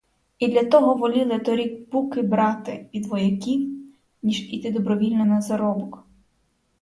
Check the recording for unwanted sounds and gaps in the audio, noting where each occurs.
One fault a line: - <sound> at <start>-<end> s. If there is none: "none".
none